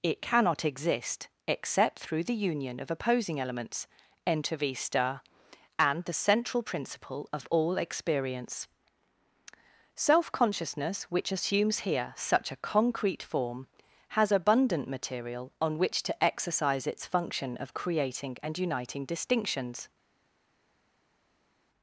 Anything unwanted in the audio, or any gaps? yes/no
no